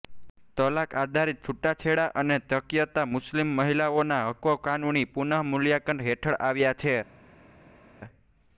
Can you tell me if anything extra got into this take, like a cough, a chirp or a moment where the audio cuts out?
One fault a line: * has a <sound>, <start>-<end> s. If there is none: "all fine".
all fine